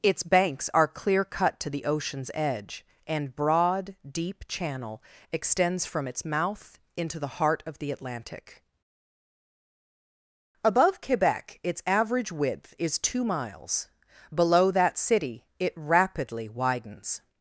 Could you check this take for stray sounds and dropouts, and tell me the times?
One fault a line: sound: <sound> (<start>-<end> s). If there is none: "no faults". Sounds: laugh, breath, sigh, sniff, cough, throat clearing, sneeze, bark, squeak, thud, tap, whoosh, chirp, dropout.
no faults